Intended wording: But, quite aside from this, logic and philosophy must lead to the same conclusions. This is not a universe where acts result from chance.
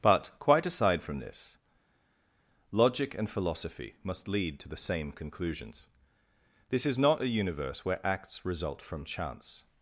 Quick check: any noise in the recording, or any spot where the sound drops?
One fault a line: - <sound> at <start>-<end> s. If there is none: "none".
none